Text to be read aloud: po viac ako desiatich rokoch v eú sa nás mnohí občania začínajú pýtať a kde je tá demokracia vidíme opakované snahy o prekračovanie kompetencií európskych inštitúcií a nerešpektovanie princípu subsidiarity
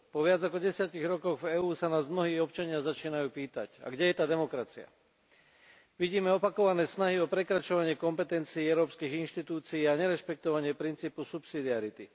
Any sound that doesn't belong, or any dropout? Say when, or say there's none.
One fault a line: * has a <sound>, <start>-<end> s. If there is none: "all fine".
all fine